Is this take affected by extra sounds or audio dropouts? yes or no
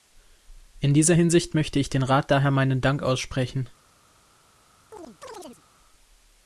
yes